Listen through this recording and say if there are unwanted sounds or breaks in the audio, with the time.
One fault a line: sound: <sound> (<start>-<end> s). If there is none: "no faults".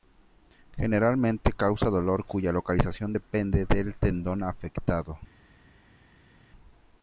no faults